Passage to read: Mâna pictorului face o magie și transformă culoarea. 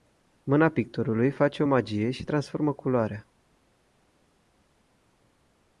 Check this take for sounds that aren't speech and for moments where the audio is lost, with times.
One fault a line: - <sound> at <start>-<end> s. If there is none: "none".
none